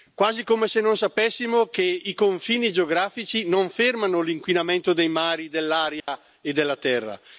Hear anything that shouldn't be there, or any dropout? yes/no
yes